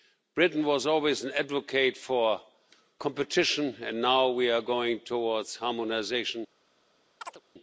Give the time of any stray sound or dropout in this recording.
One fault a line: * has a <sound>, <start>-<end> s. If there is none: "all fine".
* has a chirp, 7.2-7.4 s